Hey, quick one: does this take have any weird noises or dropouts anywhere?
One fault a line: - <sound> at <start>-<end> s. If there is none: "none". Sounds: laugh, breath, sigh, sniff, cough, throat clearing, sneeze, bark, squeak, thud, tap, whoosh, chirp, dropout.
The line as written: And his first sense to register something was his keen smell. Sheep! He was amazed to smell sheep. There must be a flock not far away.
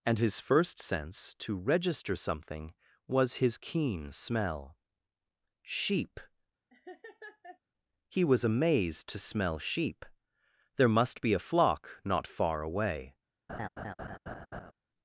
- laugh at 6.7-7.6 s
- laugh at 13.5-14.7 s